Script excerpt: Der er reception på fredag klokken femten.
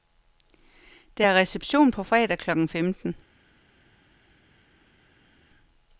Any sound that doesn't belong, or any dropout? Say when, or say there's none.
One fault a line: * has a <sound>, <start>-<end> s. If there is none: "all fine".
all fine